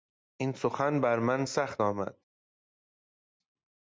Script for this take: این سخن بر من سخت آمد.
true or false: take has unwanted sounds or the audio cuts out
false